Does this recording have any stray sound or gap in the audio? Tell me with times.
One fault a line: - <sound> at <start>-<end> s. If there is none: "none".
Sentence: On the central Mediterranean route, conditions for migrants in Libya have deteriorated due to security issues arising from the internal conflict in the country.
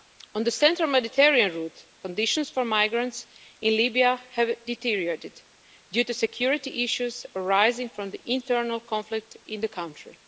none